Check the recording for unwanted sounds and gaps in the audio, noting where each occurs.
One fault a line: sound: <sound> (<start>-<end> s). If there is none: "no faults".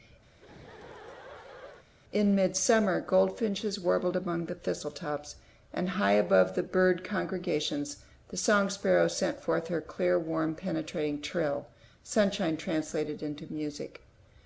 sound: laugh (0.3-1.9 s)